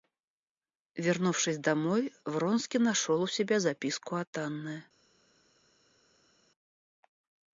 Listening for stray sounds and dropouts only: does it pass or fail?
pass